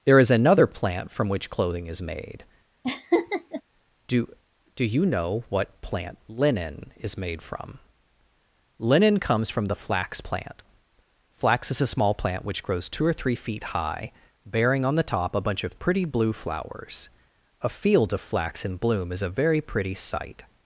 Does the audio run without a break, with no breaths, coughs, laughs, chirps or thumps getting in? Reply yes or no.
no